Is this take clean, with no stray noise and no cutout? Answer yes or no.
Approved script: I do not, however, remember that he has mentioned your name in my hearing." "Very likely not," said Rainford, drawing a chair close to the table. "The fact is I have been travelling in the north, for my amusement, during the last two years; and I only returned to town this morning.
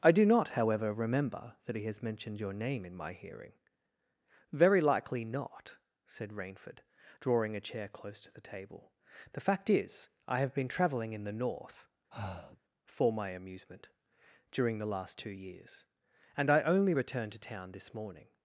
no